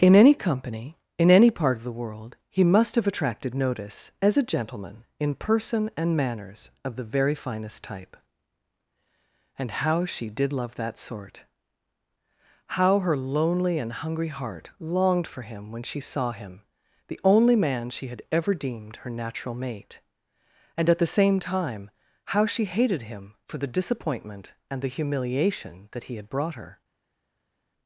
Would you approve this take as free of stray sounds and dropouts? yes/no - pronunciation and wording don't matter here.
yes